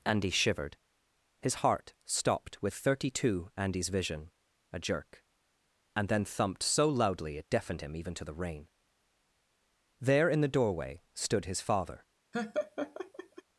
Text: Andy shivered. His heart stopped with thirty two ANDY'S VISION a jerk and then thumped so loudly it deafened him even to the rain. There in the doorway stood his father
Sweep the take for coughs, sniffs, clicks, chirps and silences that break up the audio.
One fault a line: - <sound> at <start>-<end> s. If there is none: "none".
- laugh at 12.3-13.4 s